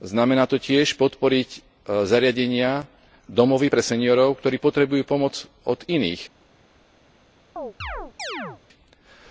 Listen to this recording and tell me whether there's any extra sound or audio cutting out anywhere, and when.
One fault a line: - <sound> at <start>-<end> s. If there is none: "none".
- chirp at 7.6-8.6 s